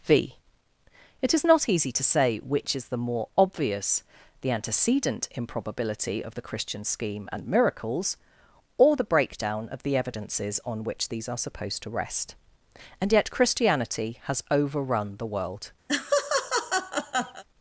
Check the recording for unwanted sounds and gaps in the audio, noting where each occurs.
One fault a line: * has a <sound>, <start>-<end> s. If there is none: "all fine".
* has a laugh, 15.9-17.4 s